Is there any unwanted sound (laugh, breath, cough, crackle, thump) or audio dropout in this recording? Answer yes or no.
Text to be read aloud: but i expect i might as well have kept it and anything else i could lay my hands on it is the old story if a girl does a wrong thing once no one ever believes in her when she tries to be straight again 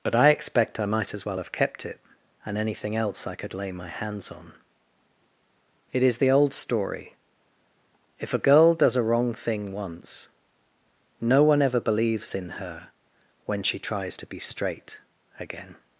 no